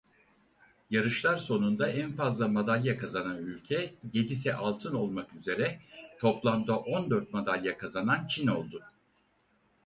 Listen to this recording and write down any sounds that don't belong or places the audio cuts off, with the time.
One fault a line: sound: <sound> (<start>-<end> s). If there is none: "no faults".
no faults